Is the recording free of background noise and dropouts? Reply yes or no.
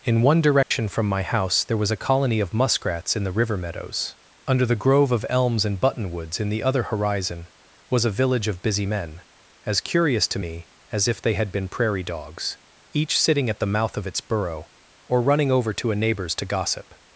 no